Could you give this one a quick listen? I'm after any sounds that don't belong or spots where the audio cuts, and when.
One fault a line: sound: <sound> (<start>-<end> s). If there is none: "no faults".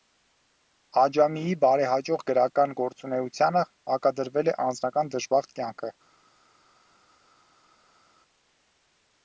no faults